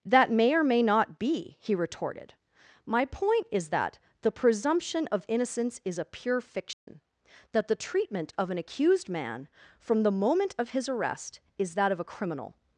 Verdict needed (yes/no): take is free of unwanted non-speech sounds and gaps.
no